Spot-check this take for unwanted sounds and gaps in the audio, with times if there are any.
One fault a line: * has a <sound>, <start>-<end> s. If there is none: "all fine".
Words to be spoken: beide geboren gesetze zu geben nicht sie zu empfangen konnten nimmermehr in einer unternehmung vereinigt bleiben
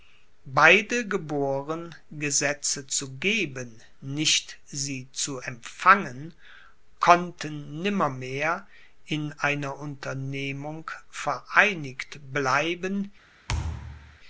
* has a thud, 13.5-14.2 s